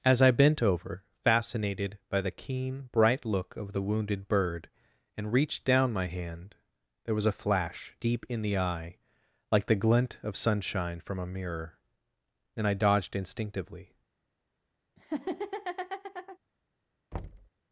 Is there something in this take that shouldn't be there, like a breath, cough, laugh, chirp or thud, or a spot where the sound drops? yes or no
yes